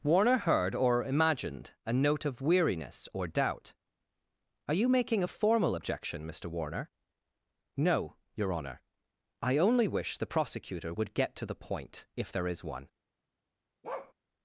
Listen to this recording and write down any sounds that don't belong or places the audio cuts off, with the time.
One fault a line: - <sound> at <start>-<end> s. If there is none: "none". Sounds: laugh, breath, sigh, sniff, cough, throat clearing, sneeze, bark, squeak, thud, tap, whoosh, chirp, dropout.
- bark at 13.8-14.1 s